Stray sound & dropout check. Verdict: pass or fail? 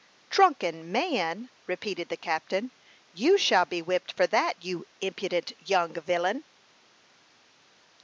pass